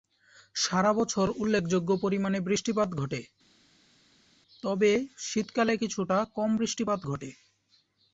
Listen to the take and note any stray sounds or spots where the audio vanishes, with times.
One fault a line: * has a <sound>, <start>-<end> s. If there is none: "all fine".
all fine